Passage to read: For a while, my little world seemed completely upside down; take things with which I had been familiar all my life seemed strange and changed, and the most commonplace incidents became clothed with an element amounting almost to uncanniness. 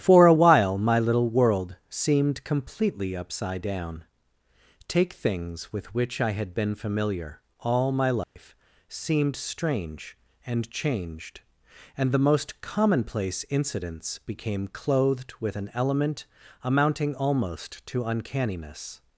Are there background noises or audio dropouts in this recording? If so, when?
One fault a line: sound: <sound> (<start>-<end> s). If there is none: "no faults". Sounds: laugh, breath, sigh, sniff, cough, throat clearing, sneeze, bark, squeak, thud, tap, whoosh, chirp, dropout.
sound: dropout (8.2-8.4 s)